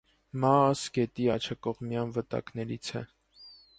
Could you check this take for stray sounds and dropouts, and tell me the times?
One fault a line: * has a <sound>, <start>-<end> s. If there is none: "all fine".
all fine